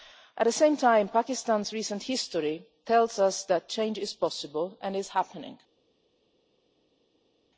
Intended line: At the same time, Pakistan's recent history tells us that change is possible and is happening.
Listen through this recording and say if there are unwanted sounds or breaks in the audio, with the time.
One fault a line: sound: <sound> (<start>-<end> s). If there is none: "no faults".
no faults